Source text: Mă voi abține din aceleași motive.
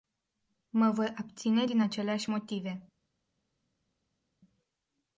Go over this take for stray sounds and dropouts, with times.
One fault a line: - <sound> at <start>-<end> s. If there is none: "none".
none